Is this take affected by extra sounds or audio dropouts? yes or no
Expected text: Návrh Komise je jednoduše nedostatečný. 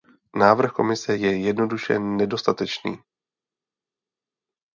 no